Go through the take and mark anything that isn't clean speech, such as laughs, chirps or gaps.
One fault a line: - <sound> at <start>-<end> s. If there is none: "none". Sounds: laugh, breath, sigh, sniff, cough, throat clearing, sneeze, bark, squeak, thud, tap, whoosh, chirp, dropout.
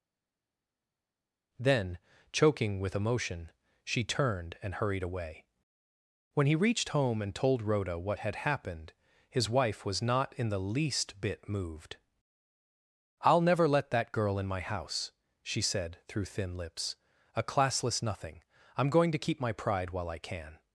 none